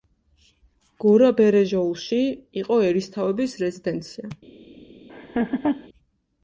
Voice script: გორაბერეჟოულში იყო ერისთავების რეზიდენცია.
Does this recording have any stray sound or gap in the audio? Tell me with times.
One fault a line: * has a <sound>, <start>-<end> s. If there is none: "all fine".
* has a laugh, 5.1-5.9 s